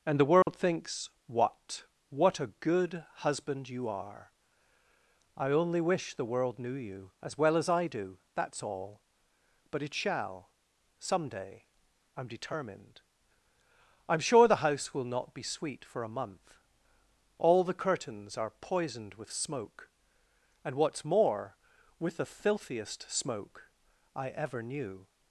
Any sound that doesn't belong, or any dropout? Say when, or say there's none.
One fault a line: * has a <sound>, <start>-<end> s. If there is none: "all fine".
* has a dropout, 0.4-0.5 s